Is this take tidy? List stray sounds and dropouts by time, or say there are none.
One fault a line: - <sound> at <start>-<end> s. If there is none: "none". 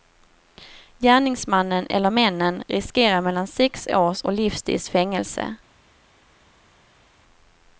none